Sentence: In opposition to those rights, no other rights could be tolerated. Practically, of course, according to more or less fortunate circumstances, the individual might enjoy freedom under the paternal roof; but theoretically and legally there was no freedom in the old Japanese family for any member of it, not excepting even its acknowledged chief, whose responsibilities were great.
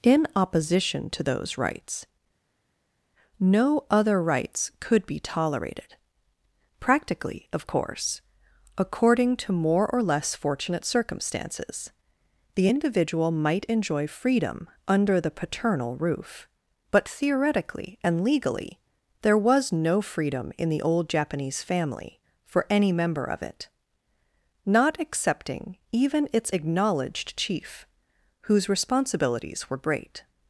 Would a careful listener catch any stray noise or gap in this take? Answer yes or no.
no